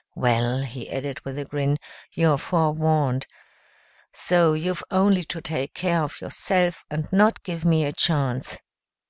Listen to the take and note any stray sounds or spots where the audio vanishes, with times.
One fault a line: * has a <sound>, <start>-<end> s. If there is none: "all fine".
all fine